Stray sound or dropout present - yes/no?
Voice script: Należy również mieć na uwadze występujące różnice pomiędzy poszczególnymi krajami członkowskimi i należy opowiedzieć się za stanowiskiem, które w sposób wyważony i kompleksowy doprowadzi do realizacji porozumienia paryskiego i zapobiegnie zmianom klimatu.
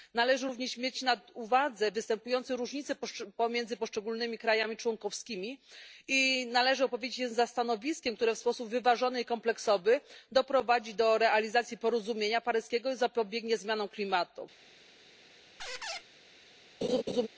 yes